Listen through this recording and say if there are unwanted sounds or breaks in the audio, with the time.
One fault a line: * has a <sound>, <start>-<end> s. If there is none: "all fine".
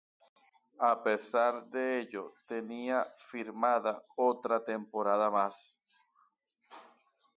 all fine